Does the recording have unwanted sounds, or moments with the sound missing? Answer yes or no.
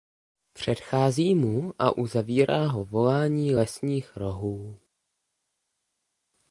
no